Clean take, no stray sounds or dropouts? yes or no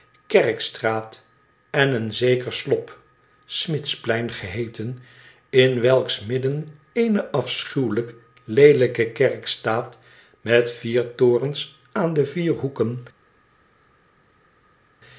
yes